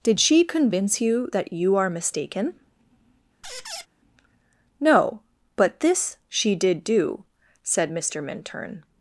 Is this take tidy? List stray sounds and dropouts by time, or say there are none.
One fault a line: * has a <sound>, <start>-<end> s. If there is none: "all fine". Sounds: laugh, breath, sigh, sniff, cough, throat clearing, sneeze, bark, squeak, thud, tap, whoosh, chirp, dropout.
* has a squeak, 3.4-3.9 s